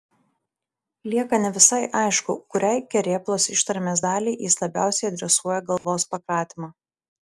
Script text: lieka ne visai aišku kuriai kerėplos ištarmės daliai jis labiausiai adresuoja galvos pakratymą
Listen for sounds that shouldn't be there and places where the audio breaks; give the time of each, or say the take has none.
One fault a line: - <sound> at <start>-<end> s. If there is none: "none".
- dropout at 5.8-5.8 s